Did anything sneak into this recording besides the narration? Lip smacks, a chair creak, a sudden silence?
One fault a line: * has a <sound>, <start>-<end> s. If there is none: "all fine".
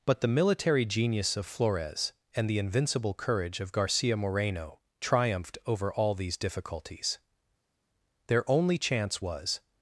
all fine